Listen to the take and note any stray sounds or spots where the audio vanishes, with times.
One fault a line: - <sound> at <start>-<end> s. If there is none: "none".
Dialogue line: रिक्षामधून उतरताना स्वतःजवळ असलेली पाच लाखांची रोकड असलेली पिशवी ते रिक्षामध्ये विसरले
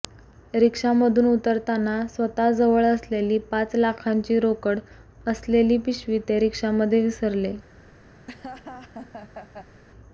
- laugh at 8.3-9.8 s